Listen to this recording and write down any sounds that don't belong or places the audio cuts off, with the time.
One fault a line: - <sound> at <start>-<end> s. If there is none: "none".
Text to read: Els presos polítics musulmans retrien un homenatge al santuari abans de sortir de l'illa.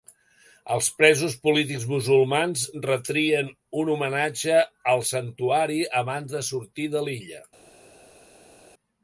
none